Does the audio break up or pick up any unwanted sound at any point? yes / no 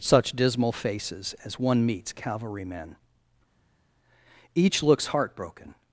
no